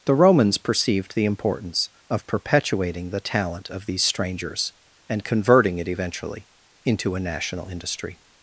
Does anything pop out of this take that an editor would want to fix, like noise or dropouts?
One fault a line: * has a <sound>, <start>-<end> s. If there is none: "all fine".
all fine